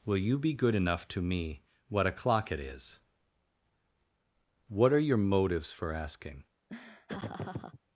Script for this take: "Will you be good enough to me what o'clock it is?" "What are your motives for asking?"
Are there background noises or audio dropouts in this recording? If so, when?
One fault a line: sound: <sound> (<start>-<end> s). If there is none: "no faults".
sound: laugh (6.7-7.8 s)